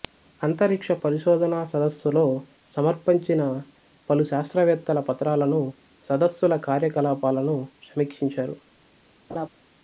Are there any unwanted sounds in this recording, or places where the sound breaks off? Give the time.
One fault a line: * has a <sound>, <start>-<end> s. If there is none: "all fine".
* has a laugh, 9.3-9.5 s